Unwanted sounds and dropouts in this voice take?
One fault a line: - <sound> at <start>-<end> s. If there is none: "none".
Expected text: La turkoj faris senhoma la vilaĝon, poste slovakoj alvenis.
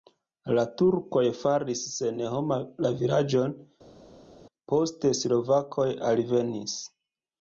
none